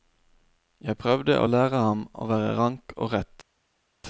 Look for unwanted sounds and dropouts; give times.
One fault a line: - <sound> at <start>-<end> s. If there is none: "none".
none